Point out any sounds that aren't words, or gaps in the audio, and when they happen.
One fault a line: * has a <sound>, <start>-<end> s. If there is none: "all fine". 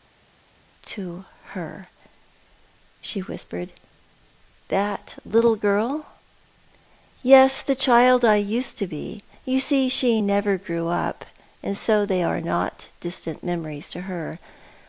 all fine